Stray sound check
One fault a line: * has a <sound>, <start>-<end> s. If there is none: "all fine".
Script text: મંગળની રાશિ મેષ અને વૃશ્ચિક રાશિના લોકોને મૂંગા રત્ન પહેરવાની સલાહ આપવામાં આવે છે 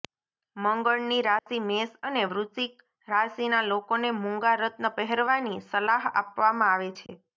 * has a dropout, 1.4-1.5 s
* has a dropout, 7.1-7.1 s